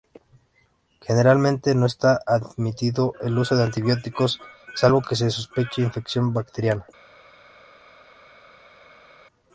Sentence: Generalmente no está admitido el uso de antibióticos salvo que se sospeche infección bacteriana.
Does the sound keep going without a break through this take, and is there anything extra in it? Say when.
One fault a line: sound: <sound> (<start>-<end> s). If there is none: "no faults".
no faults